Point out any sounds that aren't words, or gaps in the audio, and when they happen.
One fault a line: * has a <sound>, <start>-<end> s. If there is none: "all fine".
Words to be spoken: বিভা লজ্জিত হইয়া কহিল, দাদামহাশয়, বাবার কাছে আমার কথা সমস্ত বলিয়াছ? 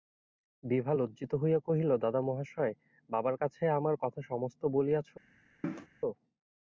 * has a cough, 5.6-5.9 s